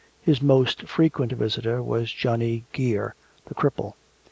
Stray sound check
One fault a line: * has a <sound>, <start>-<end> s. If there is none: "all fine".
all fine